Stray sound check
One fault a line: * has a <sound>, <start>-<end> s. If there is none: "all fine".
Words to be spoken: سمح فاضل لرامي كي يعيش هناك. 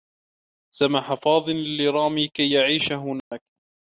* has a dropout, 3.2-3.3 s